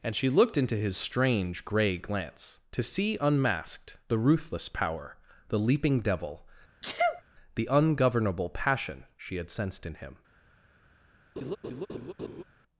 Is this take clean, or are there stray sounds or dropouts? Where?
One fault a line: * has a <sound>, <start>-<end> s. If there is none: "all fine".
* has a sneeze, 6.8-7.2 s
* has a laugh, 11.4-12.4 s